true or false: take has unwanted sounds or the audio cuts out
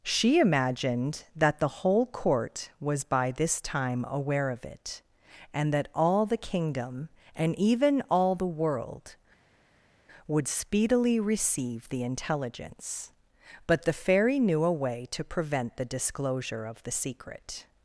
false